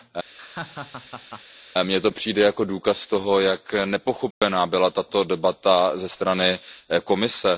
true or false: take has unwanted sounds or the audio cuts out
true